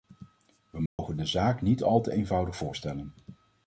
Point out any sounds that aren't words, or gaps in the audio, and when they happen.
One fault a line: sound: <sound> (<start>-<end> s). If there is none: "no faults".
sound: dropout (0.9-1.0 s)